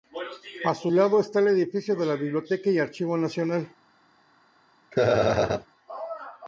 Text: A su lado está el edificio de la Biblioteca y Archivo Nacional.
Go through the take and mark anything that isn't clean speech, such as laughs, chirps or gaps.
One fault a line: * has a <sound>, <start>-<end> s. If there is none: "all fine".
* has a laugh, 4.9-5.7 s